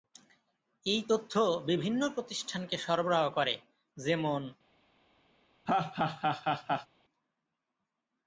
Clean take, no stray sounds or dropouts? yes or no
no